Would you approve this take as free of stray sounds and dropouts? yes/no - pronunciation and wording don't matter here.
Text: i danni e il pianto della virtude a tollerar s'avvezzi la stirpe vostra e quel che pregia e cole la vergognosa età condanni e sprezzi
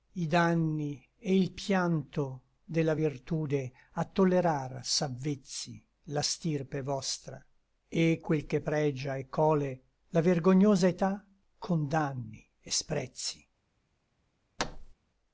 no